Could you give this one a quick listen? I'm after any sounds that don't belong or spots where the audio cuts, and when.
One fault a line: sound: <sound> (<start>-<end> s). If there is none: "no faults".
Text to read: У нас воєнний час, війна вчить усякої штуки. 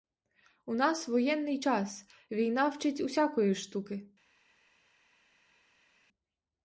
no faults